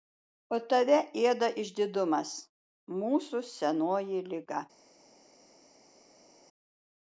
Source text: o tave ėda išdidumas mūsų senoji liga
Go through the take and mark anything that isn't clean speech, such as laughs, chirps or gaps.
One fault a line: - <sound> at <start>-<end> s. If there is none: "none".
none